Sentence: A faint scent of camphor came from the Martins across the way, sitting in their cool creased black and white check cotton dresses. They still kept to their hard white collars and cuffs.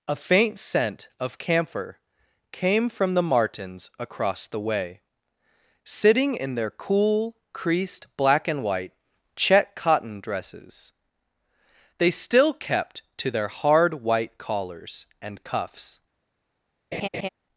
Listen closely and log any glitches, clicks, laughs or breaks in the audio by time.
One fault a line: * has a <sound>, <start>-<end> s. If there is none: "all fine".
* has a laugh, 16.9-17.3 s